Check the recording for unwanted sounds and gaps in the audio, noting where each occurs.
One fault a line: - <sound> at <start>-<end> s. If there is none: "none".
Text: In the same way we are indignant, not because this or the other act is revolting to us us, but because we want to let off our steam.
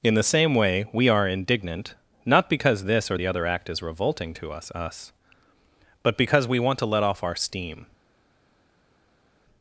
none